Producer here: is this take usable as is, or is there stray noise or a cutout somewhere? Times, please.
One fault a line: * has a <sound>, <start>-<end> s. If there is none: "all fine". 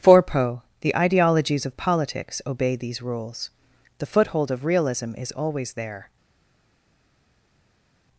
all fine